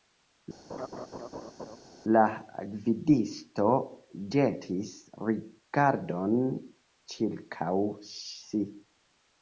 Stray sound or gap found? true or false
true